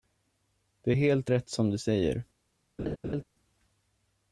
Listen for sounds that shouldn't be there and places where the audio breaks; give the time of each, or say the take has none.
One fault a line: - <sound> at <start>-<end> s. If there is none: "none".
- laugh at 2.8-3.2 s